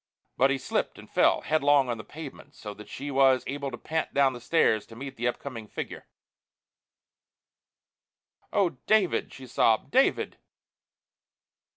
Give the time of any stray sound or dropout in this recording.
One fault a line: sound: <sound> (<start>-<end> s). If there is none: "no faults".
no faults